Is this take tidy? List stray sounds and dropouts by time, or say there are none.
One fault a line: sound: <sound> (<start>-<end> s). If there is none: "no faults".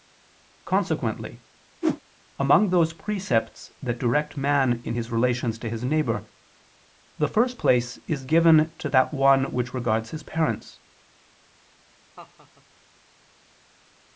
sound: whoosh (1.8-2.0 s)
sound: laugh (12.2-12.7 s)